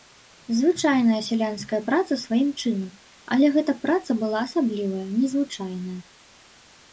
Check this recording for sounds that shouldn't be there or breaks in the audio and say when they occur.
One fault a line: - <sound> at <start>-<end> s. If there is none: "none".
none